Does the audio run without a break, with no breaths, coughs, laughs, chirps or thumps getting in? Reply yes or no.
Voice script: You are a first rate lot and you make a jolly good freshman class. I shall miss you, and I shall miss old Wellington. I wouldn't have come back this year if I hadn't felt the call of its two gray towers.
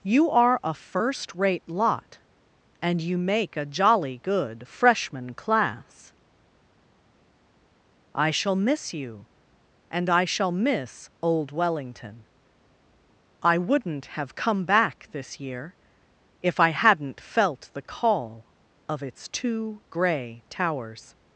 yes